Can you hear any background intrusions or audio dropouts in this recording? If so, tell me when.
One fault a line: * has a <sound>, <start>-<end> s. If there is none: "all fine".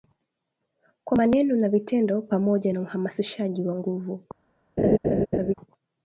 * has a laugh, 4.8-5.5 s